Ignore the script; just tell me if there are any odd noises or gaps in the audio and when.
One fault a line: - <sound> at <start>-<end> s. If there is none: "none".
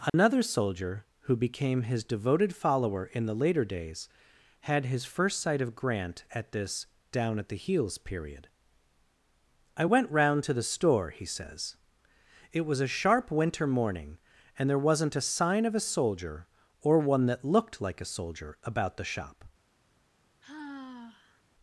- dropout at 0.1-0.1 s
- sigh at 20.4-21.4 s